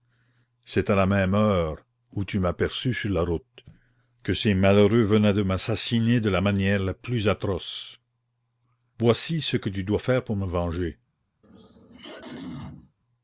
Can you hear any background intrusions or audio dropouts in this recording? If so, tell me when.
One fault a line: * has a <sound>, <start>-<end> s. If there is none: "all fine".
* has a throat clearing, 11.4-13.0 s